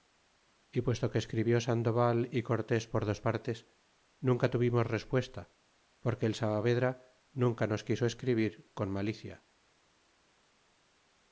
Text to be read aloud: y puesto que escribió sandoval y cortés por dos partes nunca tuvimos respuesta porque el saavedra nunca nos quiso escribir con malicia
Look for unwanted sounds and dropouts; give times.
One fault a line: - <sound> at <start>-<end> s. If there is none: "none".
none